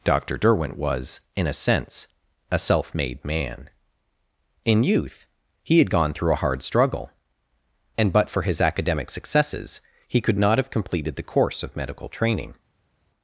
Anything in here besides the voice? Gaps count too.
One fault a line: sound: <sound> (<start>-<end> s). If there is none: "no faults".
no faults